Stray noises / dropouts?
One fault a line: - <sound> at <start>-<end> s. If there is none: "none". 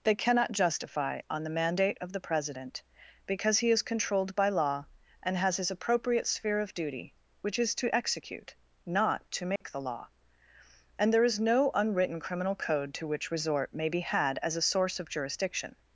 - dropout at 9.6-9.6 s